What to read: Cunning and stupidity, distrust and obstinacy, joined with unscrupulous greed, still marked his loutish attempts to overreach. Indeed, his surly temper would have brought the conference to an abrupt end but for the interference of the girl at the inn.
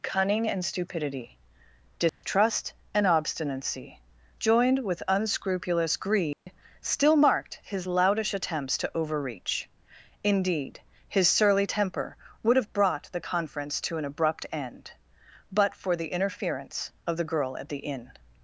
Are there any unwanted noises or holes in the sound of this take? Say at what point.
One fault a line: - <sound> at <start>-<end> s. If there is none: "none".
- dropout at 2.1-2.2 s
- dropout at 6.3-6.5 s